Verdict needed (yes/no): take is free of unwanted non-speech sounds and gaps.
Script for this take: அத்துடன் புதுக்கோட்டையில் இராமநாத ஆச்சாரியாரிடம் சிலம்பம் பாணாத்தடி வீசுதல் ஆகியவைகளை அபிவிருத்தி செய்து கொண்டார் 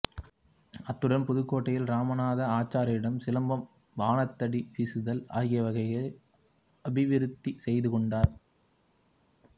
yes